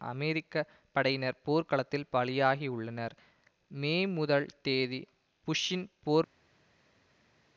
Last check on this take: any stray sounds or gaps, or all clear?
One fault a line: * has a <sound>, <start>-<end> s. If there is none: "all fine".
all fine